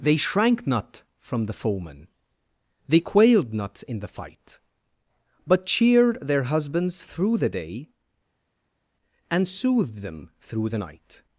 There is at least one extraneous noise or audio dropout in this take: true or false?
false